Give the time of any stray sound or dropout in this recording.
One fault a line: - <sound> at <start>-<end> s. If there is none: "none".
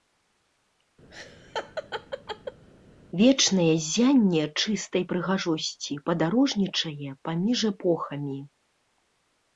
- laugh at 1.1-2.6 s